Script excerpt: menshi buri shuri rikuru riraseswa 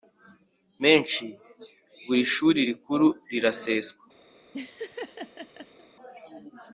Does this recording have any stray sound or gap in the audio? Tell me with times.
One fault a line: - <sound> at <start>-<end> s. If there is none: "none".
- laugh at 4.5-5.9 s